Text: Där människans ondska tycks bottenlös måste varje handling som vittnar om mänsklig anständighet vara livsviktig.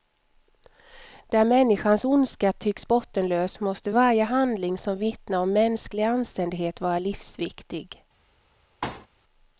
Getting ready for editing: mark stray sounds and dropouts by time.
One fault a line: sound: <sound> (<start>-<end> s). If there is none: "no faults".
sound: thud (8.8-9.1 s)